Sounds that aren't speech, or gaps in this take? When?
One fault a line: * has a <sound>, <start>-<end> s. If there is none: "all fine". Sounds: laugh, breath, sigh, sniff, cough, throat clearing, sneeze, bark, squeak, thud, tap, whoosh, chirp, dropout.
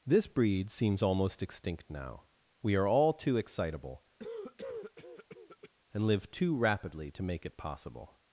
* has a cough, 4.2-5.7 s